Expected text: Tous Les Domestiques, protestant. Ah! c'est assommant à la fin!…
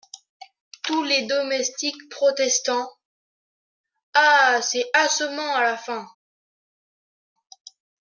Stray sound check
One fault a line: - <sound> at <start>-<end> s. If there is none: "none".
none